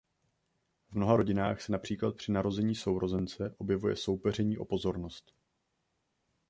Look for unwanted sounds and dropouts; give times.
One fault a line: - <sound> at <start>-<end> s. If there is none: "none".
none